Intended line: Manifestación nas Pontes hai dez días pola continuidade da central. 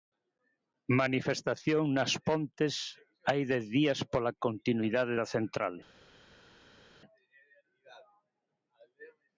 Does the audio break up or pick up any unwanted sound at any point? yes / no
no